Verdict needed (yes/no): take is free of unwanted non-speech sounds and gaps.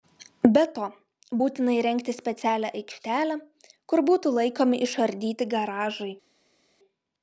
yes